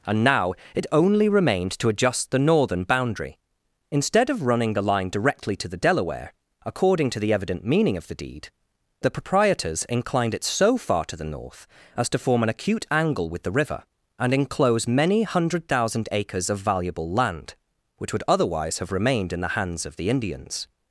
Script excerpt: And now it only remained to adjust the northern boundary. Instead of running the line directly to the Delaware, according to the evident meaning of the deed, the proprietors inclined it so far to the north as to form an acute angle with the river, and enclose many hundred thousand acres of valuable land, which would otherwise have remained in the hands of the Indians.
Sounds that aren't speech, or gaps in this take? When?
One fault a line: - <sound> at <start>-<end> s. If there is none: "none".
none